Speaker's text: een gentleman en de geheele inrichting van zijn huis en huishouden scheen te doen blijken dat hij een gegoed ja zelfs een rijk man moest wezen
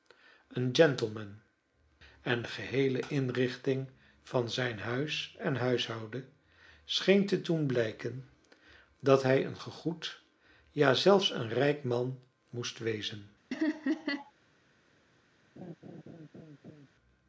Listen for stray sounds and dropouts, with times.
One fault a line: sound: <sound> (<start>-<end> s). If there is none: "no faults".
sound: laugh (13.5-14.3 s)
sound: laugh (15.6-16.9 s)